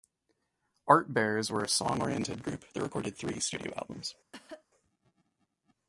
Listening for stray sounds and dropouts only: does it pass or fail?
fail